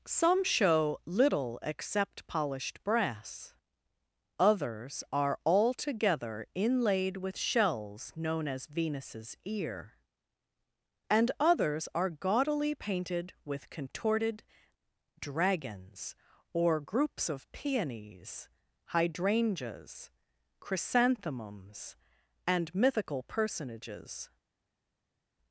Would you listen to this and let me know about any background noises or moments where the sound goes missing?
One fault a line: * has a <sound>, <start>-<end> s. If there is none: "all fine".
all fine